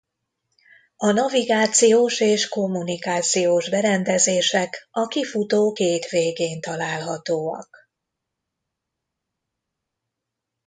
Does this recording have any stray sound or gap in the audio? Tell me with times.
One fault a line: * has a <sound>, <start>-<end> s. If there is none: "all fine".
all fine